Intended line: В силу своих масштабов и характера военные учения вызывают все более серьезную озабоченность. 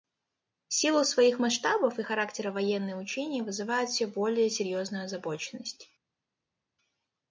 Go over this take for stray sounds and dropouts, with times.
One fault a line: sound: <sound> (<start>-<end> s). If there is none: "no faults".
no faults